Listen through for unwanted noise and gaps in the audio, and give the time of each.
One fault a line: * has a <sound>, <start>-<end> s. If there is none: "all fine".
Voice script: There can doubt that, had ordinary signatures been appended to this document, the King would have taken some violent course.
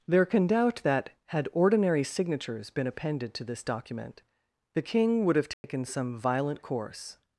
* has a dropout, 5.5-5.6 s